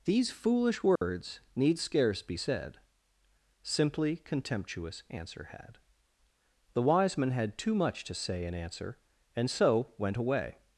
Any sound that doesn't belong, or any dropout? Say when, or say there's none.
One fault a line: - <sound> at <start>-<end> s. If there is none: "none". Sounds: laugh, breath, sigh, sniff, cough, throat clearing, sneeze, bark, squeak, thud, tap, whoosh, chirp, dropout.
- dropout at 1.0-1.0 s